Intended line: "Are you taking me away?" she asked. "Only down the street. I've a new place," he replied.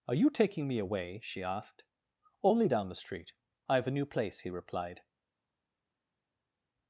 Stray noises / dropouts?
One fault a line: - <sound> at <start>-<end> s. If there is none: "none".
none